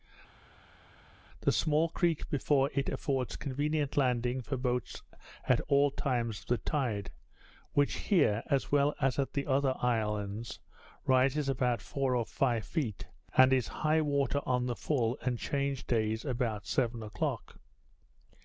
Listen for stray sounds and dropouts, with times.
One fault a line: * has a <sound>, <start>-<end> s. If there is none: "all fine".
all fine